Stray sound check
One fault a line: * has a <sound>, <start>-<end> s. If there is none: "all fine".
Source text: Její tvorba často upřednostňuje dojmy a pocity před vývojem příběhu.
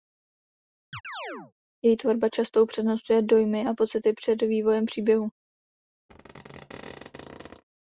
* has a chirp, 0.9-1.5 s
* has a squeak, 6.1-7.6 s